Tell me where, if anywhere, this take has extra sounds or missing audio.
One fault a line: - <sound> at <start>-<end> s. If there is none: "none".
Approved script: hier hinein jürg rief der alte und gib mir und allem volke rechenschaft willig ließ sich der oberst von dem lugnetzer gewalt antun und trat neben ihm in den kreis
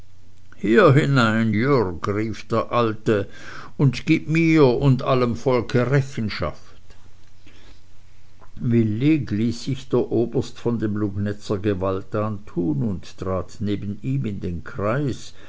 none